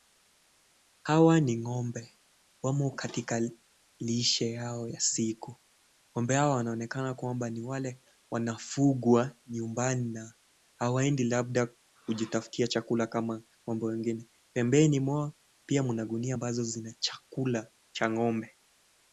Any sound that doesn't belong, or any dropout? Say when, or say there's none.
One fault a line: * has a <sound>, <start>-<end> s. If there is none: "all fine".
all fine